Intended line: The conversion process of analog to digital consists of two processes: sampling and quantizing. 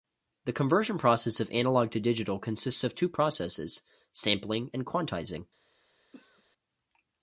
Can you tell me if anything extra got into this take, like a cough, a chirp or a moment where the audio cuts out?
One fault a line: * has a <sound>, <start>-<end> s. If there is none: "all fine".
* has a throat clearing, 6.1-6.4 s